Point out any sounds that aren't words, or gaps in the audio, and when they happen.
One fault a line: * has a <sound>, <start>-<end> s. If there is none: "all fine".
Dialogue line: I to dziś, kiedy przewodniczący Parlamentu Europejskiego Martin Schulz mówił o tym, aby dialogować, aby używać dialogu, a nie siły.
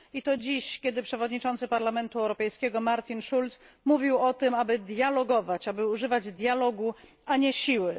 all fine